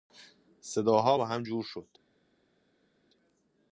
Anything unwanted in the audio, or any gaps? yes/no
no